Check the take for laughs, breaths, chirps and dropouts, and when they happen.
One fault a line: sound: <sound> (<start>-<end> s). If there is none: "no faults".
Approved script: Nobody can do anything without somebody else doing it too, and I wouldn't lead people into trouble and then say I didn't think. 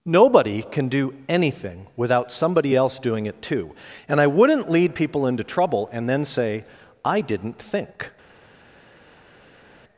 no faults